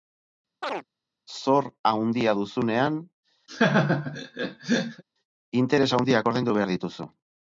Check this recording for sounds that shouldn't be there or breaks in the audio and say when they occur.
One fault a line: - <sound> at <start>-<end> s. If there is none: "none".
- chirp at 0.6-0.8 s
- laugh at 3.5-5.0 s